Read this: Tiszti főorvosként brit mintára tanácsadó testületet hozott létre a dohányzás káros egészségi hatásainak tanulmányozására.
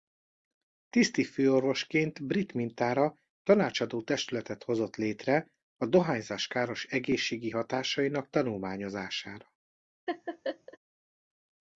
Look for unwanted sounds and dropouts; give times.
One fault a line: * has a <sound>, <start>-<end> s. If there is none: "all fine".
* has a laugh, 10.1-10.8 s